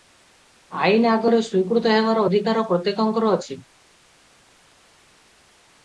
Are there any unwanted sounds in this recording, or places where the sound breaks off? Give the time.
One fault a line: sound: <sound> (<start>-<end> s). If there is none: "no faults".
no faults